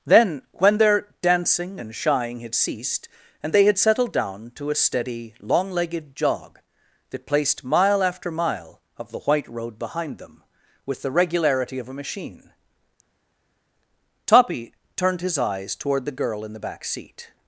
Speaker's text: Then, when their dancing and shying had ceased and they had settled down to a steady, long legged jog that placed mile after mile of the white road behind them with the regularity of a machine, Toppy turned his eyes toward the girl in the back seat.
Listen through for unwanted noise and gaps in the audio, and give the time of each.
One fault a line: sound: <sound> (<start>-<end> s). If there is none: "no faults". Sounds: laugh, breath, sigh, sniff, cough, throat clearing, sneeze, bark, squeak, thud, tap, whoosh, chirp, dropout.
no faults